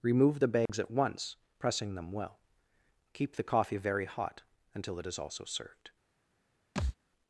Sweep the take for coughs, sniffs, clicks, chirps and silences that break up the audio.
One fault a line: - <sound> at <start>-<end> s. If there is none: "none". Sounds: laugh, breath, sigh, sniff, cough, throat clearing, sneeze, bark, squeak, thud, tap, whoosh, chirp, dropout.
- dropout at 0.7-0.7 s
- thud at 6.8-7.0 s